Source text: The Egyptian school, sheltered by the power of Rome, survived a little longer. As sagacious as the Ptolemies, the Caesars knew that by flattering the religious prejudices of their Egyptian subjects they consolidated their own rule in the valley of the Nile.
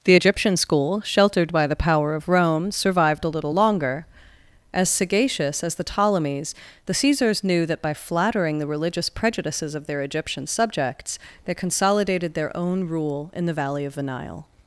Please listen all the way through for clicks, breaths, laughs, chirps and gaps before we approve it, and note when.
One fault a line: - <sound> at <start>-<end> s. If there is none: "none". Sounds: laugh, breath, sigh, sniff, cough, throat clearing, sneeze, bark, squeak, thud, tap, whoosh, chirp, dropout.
none